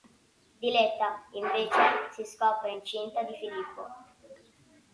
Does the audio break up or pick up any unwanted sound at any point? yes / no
no